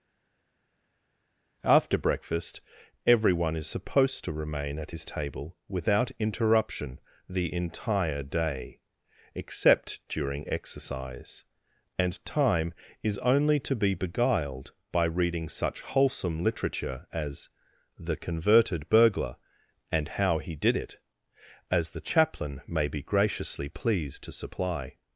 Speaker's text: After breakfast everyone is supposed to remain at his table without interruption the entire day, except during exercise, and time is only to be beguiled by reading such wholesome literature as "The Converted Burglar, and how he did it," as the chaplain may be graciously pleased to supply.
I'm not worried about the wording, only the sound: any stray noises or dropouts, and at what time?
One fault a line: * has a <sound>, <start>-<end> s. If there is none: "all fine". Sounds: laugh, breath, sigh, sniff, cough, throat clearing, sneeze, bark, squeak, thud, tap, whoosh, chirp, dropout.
all fine